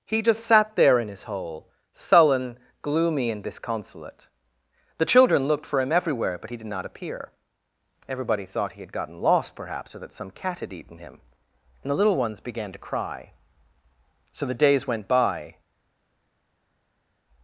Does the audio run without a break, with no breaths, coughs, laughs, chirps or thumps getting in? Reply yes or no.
yes